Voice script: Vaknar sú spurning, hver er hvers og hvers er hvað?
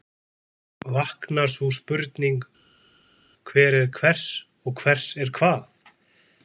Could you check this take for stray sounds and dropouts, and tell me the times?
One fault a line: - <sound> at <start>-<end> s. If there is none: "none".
none